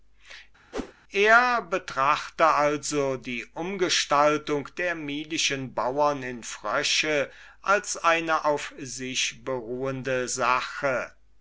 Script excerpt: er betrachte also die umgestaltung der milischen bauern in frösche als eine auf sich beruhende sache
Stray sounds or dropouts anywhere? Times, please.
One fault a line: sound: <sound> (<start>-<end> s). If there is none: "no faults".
sound: whoosh (0.7-0.9 s)